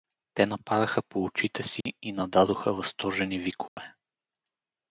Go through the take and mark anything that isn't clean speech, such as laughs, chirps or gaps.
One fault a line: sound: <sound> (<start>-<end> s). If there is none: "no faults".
sound: dropout (1.8-1.9 s)
sound: dropout (3.7-3.8 s)